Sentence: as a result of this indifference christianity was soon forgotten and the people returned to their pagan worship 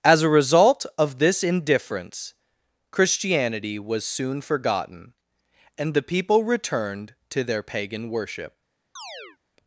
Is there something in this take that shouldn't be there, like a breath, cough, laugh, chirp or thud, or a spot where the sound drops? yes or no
yes